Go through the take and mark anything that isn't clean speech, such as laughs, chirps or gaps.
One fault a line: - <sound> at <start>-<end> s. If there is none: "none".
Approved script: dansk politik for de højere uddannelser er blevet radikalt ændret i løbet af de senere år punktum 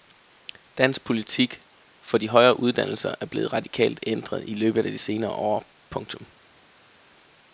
none